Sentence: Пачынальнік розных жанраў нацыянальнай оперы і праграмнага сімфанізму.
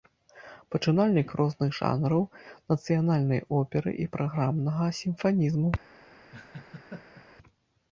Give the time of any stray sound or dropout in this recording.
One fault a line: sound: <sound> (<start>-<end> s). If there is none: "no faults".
sound: laugh (6.3-7.3 s)